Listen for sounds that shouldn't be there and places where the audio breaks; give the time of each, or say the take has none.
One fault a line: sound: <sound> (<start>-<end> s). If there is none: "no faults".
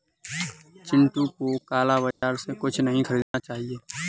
sound: dropout (2.1-2.2 s)
sound: dropout (3.2-3.3 s)